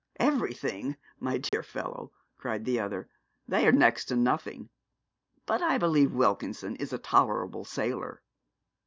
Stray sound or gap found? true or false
true